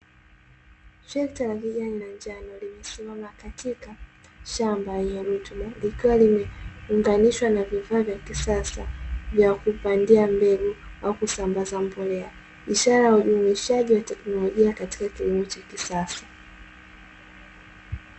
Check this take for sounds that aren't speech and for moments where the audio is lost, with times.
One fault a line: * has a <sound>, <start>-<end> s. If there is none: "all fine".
all fine